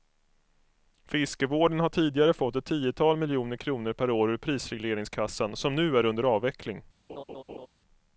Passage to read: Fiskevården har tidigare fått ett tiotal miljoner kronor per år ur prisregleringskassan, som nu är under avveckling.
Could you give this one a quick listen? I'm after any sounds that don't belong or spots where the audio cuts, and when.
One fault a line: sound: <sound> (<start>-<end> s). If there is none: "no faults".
sound: laugh (7.1-7.7 s)